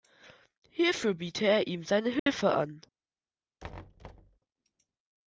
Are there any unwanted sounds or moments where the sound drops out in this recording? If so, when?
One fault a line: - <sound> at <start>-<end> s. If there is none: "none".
- dropout at 2.2-2.3 s
- thud at 3.6-4.4 s